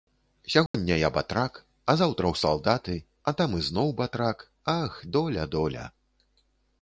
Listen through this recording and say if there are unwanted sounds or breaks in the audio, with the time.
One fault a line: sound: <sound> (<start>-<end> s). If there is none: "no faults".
sound: dropout (0.7-0.7 s)